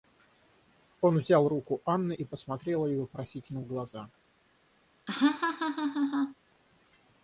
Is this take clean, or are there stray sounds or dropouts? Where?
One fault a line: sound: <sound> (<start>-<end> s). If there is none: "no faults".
sound: laugh (5.1-6.4 s)